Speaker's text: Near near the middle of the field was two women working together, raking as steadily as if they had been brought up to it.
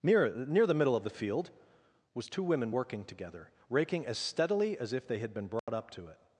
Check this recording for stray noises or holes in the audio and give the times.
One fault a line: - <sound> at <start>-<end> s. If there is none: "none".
- dropout at 5.6-5.7 s